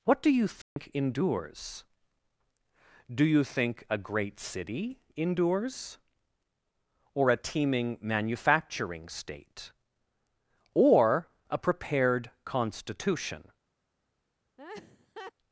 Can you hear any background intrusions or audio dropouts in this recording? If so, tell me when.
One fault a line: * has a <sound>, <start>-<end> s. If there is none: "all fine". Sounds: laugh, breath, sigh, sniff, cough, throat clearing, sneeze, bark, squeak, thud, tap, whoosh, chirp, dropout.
* has a dropout, 0.6-0.8 s
* has a laugh, 14.6-15.3 s